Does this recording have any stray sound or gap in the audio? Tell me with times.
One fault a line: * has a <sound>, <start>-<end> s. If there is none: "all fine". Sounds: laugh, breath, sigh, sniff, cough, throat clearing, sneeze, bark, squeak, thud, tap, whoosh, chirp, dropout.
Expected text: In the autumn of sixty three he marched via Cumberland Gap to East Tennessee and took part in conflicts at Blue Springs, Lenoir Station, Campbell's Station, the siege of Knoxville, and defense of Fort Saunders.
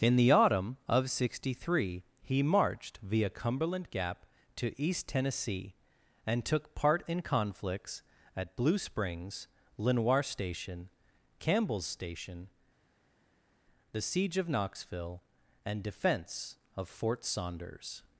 all fine